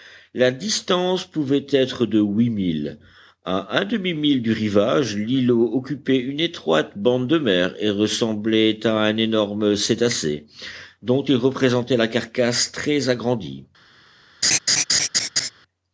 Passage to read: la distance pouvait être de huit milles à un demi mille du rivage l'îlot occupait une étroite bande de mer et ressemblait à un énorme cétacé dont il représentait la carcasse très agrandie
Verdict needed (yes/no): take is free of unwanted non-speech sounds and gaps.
no